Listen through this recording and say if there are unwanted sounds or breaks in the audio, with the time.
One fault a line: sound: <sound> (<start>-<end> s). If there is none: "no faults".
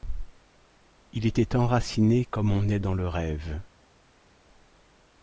no faults